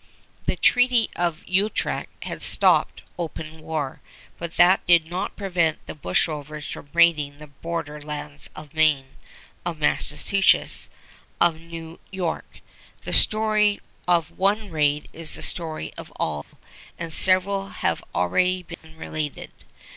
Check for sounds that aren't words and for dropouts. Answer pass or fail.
fail